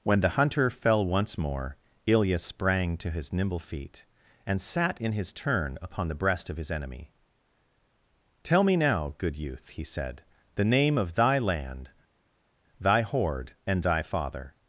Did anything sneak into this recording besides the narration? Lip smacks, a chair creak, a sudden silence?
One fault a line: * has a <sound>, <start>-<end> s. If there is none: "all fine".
all fine